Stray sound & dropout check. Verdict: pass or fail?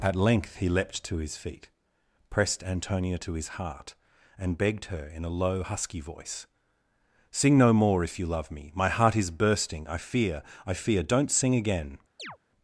fail